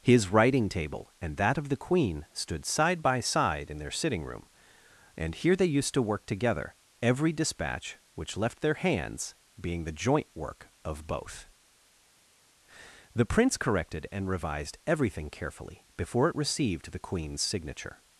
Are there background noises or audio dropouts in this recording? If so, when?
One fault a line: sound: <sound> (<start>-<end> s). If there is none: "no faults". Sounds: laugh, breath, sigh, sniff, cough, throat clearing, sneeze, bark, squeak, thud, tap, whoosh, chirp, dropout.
no faults